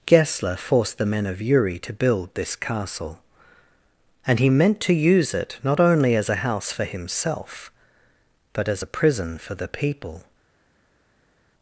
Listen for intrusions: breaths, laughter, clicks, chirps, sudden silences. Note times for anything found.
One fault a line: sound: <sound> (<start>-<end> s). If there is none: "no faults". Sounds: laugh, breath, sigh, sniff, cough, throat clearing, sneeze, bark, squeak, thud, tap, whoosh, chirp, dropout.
no faults